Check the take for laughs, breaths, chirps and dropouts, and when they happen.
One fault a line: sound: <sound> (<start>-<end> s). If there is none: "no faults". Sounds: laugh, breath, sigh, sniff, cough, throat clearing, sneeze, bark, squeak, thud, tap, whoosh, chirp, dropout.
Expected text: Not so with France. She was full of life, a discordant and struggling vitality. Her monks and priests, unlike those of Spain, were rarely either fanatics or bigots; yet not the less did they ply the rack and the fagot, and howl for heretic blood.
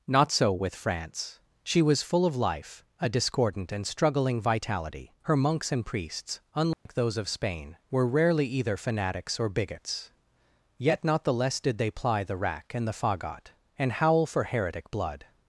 sound: dropout (6.7-6.9 s)